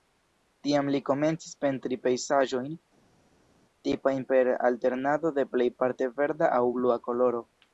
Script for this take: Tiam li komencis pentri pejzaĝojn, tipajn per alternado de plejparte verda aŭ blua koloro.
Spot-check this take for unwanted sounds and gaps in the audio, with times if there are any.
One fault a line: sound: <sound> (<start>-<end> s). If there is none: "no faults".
no faults